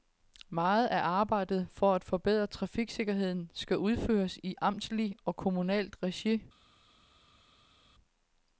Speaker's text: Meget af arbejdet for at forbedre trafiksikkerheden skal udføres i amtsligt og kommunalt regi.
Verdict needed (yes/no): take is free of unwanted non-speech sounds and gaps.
yes